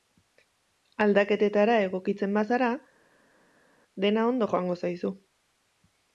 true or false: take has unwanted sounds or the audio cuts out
false